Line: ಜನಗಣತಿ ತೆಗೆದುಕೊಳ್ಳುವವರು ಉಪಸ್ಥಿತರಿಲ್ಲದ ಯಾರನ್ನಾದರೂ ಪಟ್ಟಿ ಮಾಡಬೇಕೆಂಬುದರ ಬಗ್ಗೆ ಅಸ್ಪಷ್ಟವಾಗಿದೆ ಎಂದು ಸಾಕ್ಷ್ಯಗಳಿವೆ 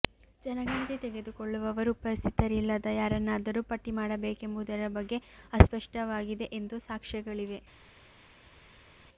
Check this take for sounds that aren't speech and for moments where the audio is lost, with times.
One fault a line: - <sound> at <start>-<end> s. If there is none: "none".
none